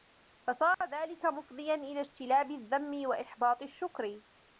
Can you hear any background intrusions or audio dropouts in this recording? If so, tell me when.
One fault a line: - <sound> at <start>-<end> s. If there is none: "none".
- dropout at 0.7-0.8 s